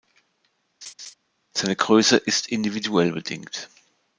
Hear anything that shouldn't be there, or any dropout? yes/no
yes